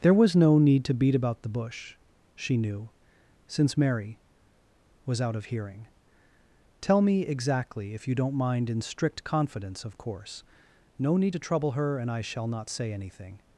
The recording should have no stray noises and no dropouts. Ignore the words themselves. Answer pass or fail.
pass